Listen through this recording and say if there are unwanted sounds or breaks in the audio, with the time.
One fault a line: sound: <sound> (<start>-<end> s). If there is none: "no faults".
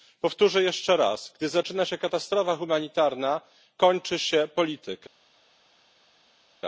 no faults